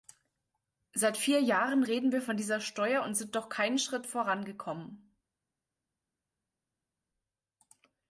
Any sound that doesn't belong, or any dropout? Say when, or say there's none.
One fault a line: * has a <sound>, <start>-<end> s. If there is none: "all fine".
all fine